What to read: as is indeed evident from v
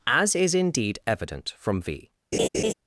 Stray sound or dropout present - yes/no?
yes